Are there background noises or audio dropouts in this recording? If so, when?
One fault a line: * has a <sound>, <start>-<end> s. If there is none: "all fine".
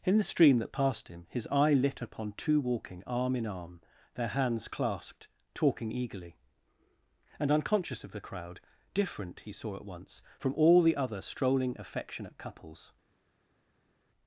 all fine